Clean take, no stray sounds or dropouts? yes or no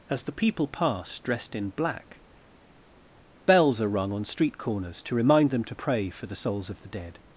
yes